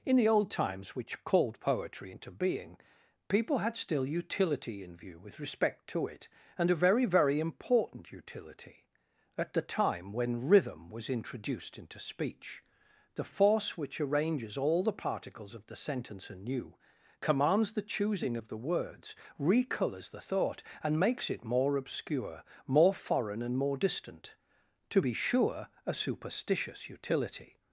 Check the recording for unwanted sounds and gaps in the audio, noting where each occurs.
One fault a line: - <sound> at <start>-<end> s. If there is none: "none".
none